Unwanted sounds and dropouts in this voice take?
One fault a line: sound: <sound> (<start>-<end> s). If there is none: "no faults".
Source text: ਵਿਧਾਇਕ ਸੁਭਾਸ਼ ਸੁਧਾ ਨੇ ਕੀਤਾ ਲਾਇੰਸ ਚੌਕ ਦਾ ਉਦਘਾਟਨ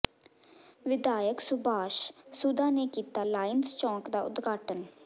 no faults